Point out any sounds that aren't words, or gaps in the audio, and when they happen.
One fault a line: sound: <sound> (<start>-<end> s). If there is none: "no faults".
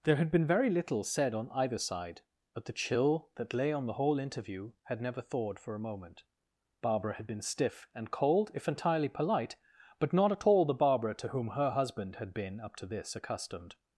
no faults